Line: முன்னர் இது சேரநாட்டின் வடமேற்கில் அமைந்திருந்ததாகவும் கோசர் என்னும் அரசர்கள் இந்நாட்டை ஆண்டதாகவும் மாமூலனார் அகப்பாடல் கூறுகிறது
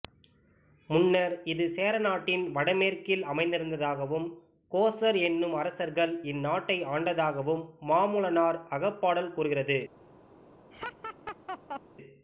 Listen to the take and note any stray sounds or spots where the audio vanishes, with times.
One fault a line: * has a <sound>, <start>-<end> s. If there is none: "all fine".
* has a laugh, 10.7-11.8 s